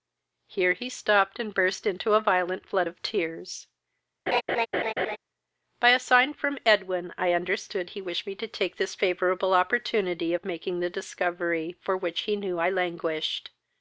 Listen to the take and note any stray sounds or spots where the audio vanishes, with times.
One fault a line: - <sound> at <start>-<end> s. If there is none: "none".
- laugh at 4.3-5.2 s